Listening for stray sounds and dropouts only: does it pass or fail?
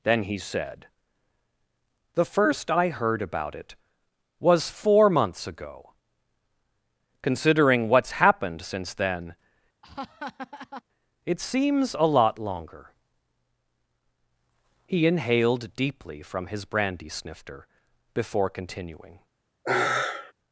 fail